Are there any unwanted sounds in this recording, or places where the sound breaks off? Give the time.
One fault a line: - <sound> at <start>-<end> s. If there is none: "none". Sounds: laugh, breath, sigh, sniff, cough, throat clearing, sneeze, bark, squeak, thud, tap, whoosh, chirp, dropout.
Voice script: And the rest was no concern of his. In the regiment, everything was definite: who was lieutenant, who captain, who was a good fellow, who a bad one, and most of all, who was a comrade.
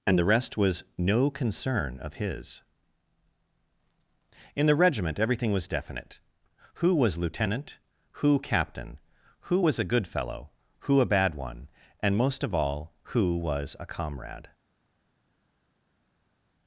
none